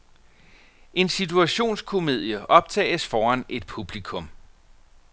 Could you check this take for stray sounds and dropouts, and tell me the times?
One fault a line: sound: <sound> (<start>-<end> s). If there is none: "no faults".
no faults